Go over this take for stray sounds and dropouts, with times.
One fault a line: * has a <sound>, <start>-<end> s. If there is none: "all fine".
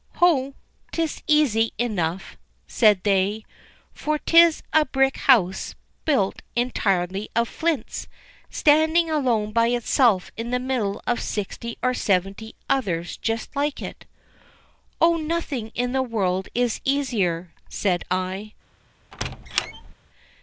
* has a squeak, 19.1-19.9 s